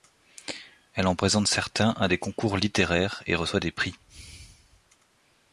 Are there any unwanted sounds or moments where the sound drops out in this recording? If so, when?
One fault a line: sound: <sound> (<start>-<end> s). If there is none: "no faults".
no faults